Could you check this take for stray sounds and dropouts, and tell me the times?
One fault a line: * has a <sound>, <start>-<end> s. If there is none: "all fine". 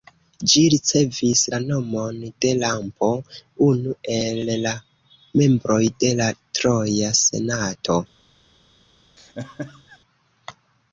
* has a laugh, 9.2-10.0 s